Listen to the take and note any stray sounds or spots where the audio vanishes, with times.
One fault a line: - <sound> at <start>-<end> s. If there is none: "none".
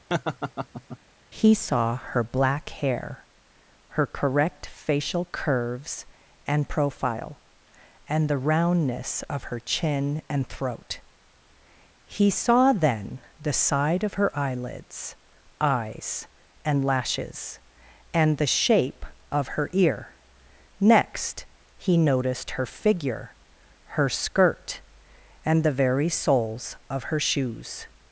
- laugh at 0.1-1.0 s